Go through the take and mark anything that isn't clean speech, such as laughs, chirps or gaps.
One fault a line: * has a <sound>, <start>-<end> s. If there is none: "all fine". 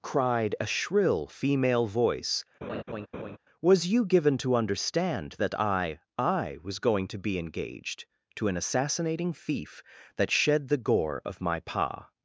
* has a laugh, 2.6-3.4 s